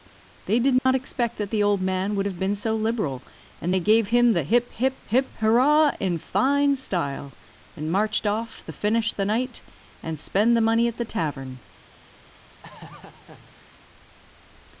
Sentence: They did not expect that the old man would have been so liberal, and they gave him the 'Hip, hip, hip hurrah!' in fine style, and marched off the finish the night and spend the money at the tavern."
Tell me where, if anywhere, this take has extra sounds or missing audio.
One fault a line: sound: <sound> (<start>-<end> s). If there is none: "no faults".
sound: dropout (0.8-0.9 s)
sound: laugh (12.6-13.8 s)